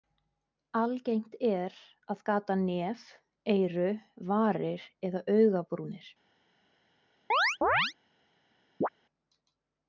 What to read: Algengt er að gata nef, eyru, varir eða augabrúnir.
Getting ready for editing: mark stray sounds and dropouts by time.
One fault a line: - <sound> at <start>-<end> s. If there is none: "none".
- chirp at 7.3-7.9 s
- chirp at 8.8-8.9 s